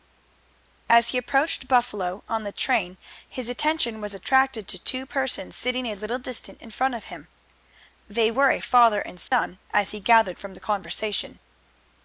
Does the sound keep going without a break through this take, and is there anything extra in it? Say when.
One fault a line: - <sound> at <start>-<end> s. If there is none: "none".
- dropout at 9.3-9.3 s